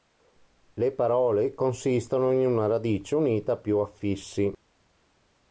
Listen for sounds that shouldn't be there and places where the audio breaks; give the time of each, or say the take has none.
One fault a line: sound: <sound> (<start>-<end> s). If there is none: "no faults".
no faults